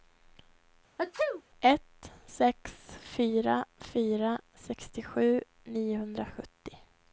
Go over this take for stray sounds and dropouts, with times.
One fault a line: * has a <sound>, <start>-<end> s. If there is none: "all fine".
* has a sneeze, 1.0-1.4 s